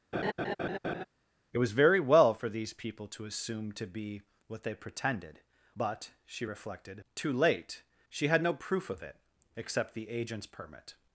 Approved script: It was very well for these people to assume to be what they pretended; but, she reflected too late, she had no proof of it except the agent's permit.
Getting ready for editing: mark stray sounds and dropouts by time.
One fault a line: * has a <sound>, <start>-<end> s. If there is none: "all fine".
* has a laugh, 0.1-1.1 s